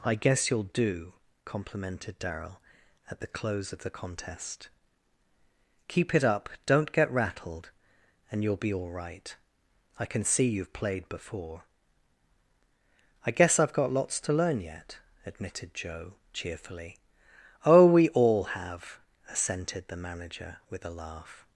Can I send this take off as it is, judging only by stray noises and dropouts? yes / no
yes